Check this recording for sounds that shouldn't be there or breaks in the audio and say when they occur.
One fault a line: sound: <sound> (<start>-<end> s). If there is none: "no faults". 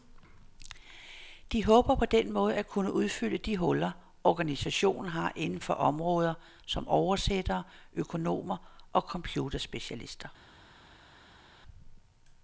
no faults